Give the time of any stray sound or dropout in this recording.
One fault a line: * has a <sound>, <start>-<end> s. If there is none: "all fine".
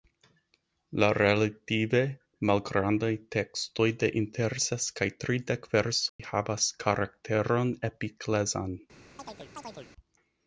* has a dropout, 6.1-6.2 s
* has a chirp, 9.2-9.9 s